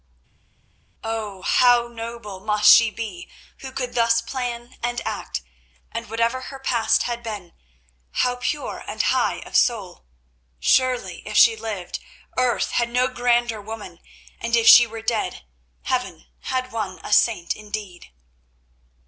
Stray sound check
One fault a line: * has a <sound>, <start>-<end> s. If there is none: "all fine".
all fine